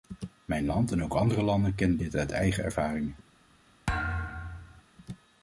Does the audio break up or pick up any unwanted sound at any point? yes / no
yes